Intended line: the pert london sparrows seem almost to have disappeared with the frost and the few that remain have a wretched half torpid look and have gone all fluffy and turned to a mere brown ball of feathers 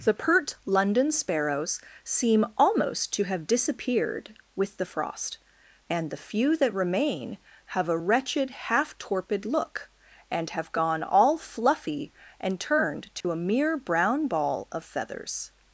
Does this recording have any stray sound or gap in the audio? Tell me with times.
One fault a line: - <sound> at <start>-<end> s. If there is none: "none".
- dropout at 13.2-13.2 s